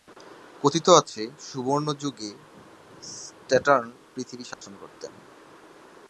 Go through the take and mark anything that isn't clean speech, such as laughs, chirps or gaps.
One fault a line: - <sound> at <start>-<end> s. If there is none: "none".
- dropout at 4.5-4.6 s